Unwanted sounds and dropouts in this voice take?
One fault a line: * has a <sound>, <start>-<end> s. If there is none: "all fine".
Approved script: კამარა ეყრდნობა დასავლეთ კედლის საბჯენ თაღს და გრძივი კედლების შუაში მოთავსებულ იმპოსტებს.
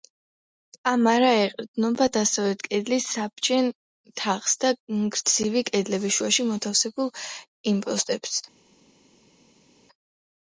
all fine